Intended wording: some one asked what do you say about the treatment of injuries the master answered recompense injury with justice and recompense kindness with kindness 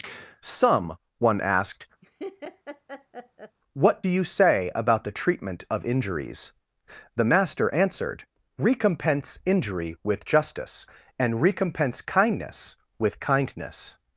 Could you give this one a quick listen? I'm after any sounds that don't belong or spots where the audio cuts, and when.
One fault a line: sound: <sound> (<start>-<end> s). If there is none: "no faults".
sound: laugh (2.0-3.6 s)